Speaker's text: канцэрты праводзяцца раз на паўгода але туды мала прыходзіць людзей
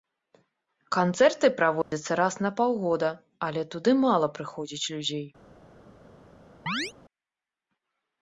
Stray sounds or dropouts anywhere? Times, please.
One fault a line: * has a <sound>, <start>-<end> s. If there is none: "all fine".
* has a dropout, 1.8-1.9 s
* has a chirp, 6.7-6.9 s